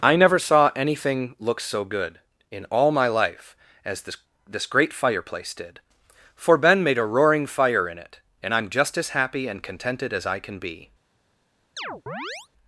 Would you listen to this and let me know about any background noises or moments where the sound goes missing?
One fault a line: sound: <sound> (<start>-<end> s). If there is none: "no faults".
sound: chirp (11.8-12.5 s)